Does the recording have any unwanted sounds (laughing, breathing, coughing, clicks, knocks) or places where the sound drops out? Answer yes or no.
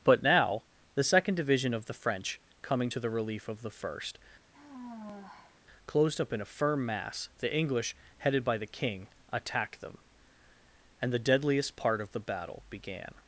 yes